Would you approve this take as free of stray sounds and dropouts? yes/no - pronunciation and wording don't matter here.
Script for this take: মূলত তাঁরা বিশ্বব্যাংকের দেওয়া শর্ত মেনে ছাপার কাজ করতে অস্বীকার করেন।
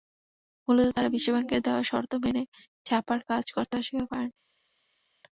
yes